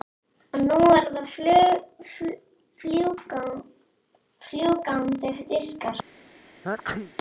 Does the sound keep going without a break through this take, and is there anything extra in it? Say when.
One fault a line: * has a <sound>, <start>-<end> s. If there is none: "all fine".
* has a sneeze, 6.6-7.1 s